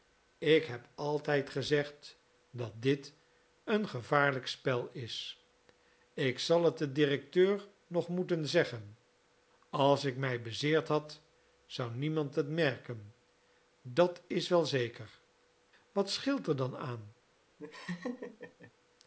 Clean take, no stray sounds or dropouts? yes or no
no